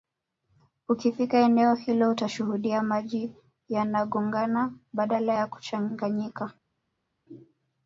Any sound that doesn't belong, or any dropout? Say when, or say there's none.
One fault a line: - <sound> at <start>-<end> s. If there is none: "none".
none